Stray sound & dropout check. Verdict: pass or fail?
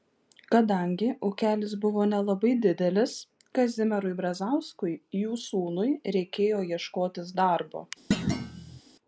fail